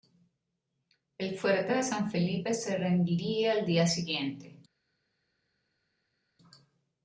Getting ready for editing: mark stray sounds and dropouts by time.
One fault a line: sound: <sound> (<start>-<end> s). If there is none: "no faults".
no faults